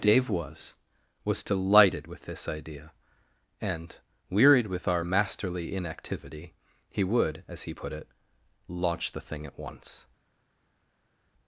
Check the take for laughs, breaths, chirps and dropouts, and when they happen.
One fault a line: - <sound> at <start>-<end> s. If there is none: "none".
none